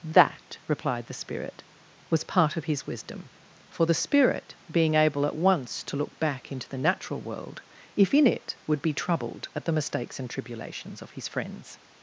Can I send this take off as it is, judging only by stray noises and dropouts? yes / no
yes